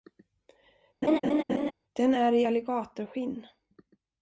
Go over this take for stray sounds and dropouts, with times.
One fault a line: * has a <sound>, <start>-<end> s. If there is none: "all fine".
* has a laugh, 1.0-1.7 s